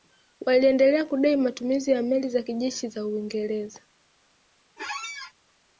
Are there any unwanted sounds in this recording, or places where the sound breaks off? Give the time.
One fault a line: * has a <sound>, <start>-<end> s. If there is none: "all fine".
* has a squeak, 4.8-5.3 s